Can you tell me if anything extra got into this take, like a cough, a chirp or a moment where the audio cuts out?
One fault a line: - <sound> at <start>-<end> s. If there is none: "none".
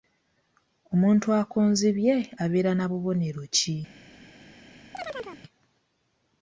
- chirp at 4.9-5.4 s